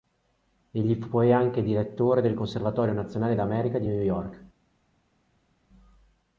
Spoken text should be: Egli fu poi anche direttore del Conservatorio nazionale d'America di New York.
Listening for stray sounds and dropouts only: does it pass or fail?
pass